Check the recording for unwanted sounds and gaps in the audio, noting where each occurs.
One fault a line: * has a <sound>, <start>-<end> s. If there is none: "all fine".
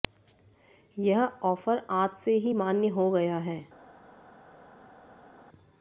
all fine